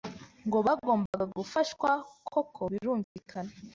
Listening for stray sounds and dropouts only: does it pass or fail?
fail